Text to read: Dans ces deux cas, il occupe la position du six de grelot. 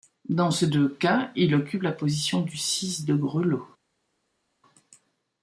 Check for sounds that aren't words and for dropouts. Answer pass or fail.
pass